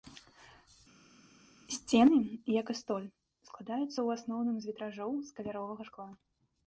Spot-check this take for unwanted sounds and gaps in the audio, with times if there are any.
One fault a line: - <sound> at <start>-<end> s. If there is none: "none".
none